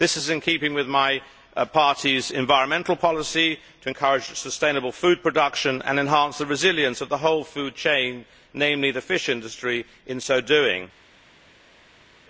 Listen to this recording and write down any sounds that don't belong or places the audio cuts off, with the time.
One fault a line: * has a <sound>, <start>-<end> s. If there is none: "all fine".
all fine